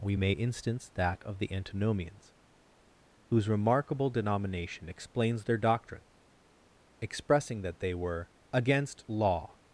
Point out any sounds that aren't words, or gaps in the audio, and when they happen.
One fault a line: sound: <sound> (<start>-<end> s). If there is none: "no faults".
no faults